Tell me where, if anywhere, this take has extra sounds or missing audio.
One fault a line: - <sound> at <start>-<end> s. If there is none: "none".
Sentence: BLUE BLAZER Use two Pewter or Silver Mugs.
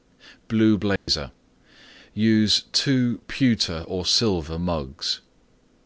- dropout at 1.0-1.1 s